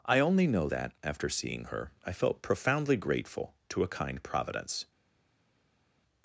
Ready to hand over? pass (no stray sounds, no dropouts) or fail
pass